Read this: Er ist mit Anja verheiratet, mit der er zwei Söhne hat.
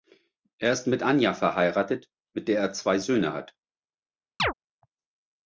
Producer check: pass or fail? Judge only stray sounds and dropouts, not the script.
fail